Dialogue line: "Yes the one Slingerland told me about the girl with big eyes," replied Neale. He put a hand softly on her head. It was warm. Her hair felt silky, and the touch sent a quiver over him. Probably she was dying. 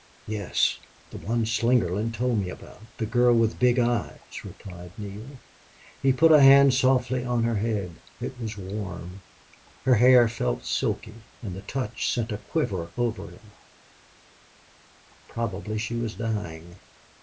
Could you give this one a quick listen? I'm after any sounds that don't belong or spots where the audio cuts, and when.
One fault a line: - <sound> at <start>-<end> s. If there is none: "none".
none